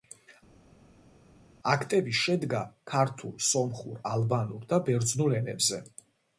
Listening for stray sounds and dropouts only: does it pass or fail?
pass